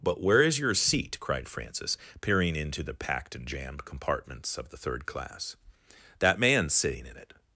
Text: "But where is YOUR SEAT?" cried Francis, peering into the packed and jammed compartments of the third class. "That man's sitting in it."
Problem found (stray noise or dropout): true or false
false